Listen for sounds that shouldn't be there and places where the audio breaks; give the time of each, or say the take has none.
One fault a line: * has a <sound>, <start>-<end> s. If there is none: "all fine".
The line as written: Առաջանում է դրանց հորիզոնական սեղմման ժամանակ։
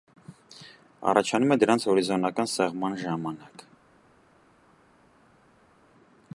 all fine